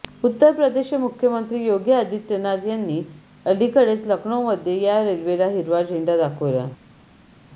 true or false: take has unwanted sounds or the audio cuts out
false